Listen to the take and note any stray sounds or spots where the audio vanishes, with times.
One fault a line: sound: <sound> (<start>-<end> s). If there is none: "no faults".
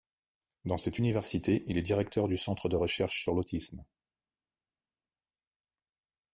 no faults